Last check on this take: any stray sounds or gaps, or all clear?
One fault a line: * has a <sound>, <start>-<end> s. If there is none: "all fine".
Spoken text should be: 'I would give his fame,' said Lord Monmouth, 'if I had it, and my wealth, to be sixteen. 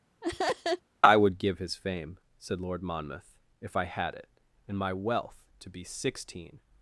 * has a laugh, 0.2-0.8 s